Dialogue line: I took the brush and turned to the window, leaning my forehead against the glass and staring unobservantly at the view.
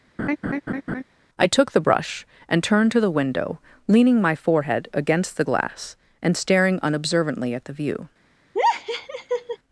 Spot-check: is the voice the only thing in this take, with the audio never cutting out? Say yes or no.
no